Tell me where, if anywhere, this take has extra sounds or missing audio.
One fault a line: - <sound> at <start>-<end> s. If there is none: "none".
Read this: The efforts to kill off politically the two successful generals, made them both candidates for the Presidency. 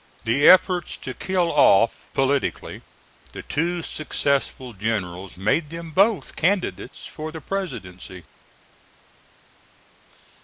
none